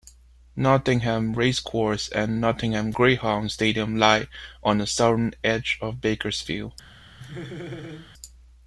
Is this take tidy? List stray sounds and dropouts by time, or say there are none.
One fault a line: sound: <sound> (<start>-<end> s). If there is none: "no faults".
sound: laugh (7.2-8.1 s)